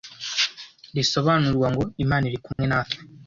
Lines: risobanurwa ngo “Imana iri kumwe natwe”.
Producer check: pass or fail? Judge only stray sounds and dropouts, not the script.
fail